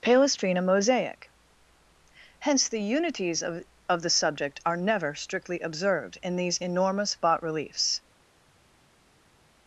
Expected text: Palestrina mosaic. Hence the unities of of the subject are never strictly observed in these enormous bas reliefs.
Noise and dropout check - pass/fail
pass